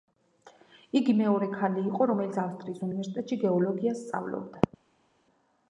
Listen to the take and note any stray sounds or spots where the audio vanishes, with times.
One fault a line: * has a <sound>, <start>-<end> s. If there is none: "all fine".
all fine